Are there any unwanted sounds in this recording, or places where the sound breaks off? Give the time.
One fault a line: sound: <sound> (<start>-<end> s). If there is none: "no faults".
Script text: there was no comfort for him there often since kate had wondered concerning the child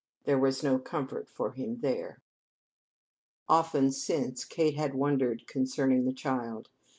no faults